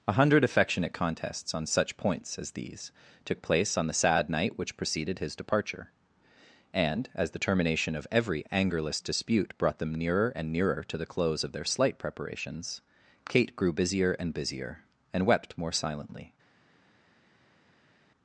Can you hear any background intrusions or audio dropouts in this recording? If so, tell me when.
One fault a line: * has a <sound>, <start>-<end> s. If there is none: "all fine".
all fine